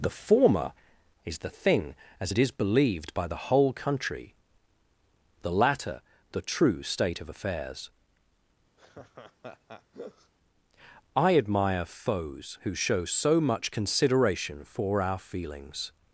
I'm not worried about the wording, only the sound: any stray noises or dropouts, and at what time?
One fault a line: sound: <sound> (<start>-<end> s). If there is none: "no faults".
sound: laugh (8.8-10.3 s)